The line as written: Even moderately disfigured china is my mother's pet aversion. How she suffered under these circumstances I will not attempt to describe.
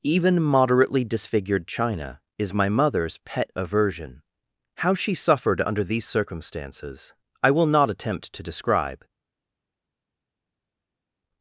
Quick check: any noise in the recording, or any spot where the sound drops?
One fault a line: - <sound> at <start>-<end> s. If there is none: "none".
none